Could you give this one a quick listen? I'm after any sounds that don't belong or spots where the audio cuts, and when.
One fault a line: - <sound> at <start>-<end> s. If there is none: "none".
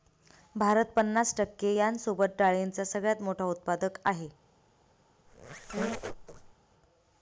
- squeak at 5.3-6.5 s